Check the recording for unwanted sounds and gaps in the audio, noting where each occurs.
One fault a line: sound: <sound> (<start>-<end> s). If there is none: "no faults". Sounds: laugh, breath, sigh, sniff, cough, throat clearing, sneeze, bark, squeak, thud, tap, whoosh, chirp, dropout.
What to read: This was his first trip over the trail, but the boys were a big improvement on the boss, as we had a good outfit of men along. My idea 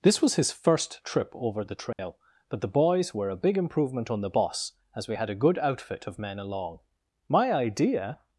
sound: dropout (1.9-2.0 s)